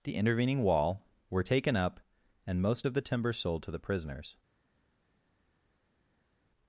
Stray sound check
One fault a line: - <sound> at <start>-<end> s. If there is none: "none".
none